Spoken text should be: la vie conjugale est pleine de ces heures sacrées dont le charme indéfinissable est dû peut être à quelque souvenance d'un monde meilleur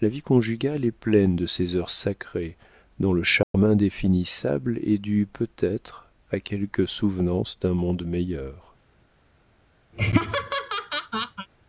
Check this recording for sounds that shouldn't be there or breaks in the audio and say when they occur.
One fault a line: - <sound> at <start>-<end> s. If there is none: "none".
- dropout at 3.4-3.5 s
- laugh at 9.9-11.5 s